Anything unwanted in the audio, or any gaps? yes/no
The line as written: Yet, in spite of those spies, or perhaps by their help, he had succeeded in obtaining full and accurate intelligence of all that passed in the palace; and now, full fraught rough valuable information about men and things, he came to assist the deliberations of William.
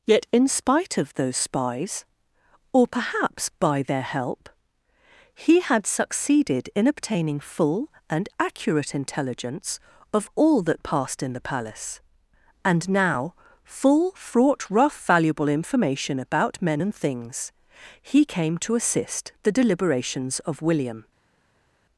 no